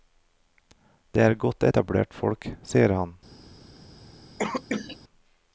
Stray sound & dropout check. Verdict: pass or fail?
fail